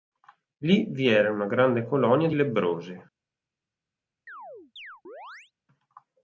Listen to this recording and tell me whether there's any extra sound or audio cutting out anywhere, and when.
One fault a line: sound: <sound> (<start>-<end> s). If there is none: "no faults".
sound: chirp (4.3-5.5 s)